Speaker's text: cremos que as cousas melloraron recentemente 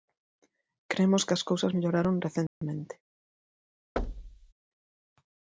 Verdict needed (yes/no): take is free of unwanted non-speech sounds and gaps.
no